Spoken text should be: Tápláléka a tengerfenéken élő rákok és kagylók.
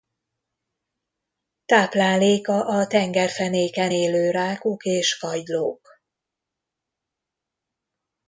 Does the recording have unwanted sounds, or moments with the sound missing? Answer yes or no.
no